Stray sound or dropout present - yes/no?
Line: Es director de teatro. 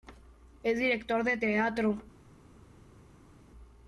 no